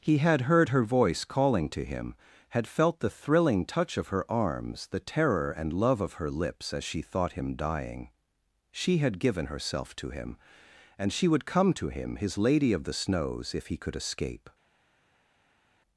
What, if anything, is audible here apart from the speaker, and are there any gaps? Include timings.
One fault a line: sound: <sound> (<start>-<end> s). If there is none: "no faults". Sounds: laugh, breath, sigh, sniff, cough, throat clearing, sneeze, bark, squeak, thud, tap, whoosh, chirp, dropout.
no faults